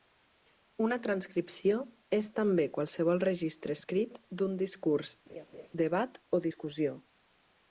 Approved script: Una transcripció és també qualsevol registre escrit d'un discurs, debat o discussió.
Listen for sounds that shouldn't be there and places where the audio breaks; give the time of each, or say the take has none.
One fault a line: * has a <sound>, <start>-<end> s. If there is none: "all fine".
* has a laugh, 5.3-5.7 s